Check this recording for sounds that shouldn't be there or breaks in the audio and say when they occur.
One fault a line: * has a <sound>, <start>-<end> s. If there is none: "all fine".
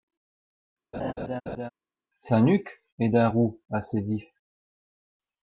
* has a laugh, 0.9-1.7 s